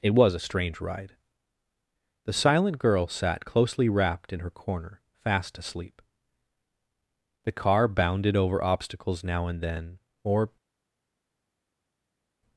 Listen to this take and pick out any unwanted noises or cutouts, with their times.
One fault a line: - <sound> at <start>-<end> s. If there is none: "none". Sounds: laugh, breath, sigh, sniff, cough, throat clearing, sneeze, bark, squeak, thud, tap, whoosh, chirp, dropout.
none